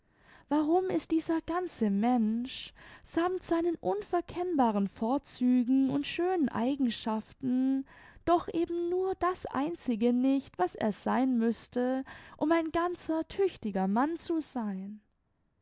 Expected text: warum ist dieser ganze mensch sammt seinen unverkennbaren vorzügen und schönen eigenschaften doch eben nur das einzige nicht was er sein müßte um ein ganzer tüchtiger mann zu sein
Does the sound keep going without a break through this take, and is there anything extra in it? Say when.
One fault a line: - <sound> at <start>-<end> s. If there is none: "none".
none